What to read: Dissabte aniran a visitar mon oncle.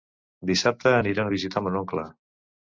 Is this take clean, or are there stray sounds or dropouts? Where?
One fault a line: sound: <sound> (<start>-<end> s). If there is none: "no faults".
no faults